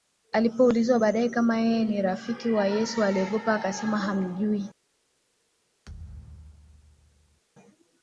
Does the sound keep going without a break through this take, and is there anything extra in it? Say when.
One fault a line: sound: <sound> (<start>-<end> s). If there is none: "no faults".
sound: thud (5.9-7.4 s)